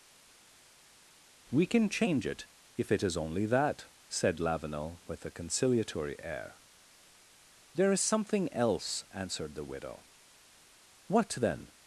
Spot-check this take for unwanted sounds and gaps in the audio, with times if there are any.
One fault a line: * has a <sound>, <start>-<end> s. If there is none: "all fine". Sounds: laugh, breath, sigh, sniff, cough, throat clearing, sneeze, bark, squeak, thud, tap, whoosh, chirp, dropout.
all fine